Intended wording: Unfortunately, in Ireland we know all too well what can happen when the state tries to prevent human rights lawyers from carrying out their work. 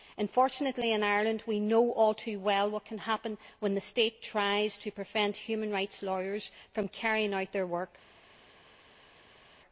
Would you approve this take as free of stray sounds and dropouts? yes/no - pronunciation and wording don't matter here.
yes